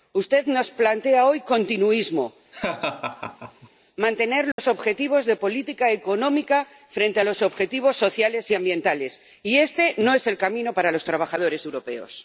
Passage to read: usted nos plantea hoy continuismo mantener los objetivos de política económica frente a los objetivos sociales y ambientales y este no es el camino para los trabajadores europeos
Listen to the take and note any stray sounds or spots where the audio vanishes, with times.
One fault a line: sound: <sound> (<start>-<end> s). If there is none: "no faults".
sound: laugh (2.5-3.7 s)
sound: dropout (4.5-4.6 s)